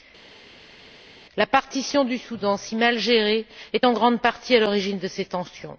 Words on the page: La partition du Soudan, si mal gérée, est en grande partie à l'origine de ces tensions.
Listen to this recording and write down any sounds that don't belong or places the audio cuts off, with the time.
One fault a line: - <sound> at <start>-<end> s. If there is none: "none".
none